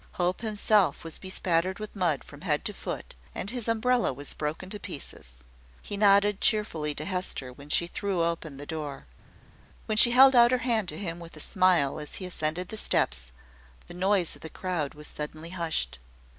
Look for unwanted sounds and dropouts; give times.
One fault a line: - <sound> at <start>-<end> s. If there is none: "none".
none